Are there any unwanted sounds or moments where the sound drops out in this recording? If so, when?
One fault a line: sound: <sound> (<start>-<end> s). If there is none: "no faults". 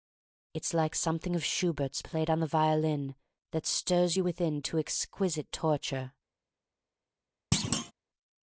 sound: thud (7.5-7.9 s)